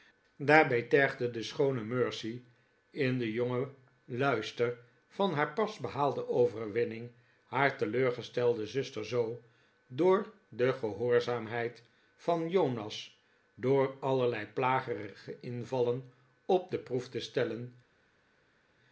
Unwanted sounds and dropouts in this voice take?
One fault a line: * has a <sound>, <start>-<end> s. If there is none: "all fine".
all fine